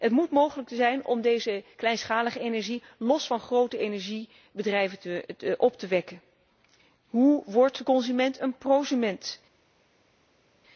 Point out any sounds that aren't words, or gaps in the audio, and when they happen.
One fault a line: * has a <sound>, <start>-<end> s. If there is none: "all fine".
all fine